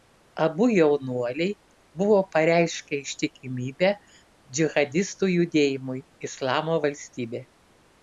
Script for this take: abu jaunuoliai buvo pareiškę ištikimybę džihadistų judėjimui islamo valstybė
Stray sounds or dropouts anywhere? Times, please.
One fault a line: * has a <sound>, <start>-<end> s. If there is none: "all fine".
all fine